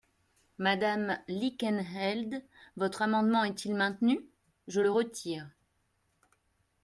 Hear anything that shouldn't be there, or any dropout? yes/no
no